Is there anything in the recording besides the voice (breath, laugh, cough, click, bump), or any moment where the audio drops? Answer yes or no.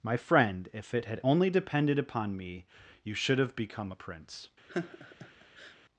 yes